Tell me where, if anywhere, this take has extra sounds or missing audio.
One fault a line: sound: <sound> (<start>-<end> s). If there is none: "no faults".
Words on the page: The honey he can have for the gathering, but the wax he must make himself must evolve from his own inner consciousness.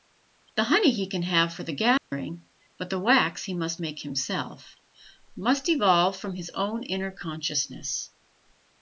sound: dropout (2.0-2.1 s)